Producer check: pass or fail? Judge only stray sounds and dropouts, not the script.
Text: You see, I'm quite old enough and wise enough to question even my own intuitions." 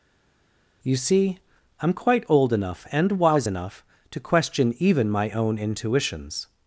pass